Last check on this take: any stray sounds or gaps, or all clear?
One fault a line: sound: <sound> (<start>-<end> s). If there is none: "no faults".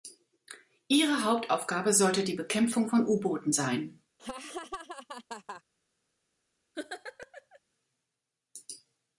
sound: laugh (4.2-5.6 s)
sound: laugh (6.7-7.6 s)